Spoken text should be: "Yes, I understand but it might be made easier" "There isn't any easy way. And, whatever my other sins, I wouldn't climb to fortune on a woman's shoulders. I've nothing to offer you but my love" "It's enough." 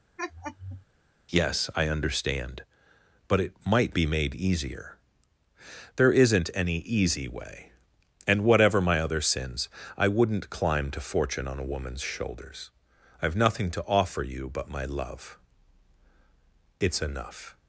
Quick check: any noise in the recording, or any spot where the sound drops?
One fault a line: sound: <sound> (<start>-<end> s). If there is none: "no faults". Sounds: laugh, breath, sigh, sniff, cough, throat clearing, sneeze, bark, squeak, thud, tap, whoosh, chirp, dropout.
sound: laugh (0.2-0.9 s)